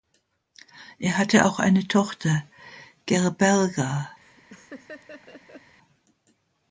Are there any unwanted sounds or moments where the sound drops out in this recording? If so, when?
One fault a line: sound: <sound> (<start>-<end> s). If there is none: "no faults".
sound: laugh (4.2-5.8 s)